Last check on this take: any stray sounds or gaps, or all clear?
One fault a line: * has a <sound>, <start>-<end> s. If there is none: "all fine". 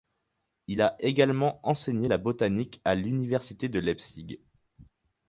all fine